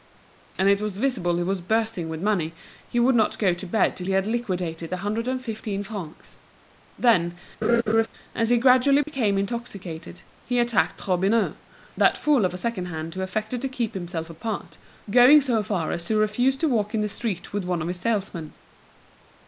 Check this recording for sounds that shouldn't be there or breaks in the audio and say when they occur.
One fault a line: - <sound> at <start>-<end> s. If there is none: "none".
- laugh at 7.6-8.1 s
- dropout at 9.0-9.1 s